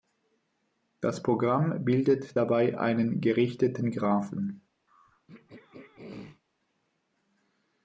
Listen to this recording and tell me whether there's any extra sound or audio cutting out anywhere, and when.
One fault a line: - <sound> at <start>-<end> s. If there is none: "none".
- throat clearing at 4.9-6.4 s